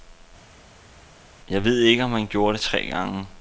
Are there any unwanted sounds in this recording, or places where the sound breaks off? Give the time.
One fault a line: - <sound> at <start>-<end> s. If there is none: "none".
none